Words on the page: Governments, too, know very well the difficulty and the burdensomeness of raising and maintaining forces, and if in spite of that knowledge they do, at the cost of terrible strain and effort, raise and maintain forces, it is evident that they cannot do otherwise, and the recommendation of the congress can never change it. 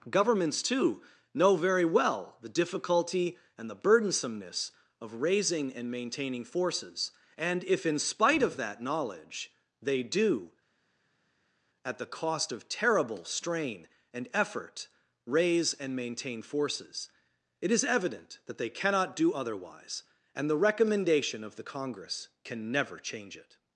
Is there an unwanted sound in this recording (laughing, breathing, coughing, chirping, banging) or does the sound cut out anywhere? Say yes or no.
no